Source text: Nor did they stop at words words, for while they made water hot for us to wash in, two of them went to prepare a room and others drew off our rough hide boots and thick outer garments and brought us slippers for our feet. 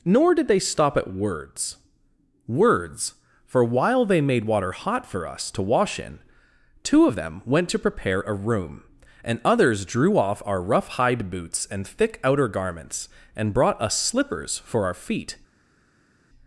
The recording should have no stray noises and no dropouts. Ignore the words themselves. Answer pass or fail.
pass